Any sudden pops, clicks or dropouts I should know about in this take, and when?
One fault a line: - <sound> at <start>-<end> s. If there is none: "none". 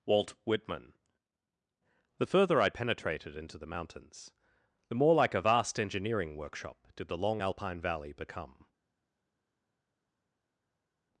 none